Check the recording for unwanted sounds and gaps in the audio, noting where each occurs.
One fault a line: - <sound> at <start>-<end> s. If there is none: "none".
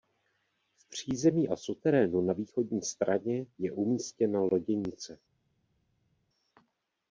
none